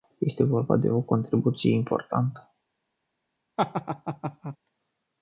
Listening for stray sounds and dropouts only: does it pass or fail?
fail